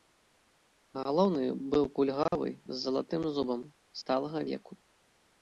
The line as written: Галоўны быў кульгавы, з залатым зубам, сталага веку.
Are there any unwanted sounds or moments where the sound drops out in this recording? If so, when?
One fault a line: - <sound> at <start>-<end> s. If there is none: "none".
- dropout at 2.3-2.3 s